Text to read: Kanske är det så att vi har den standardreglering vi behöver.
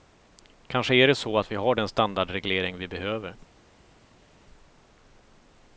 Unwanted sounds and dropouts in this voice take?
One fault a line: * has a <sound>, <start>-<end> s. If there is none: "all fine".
all fine